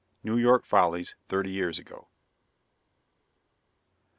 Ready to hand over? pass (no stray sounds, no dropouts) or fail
pass